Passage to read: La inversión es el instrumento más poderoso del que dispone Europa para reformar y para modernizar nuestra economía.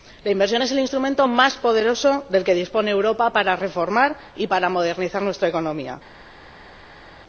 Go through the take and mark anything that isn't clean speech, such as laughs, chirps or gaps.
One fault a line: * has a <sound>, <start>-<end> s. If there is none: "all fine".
all fine